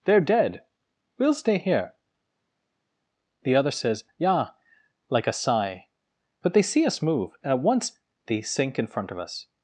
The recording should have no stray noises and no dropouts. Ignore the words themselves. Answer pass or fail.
pass